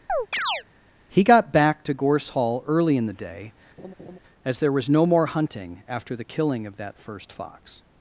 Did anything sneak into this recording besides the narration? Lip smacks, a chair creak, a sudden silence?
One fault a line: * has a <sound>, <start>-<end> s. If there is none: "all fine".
* has a chirp, 0.1-0.6 s
* has a laugh, 3.8-4.2 s